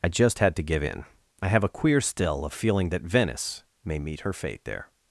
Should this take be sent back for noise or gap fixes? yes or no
no